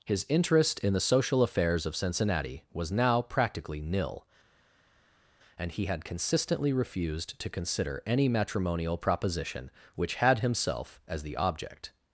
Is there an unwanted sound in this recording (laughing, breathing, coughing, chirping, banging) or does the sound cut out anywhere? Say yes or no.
no